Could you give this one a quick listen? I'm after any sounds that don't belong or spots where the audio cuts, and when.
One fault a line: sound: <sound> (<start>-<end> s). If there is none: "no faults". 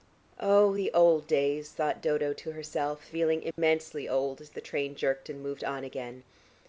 sound: dropout (3.5-3.6 s)